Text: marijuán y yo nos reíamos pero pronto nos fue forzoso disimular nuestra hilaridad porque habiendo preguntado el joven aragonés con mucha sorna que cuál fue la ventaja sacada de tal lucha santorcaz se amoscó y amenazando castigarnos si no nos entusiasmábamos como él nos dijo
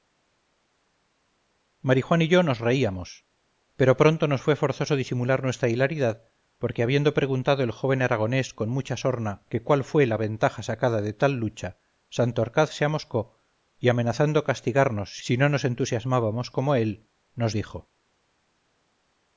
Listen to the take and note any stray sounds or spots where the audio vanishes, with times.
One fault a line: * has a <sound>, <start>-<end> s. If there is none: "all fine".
all fine